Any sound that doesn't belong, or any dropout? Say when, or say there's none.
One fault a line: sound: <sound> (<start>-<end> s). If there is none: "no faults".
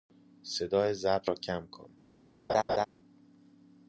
sound: laugh (2.5-2.9 s)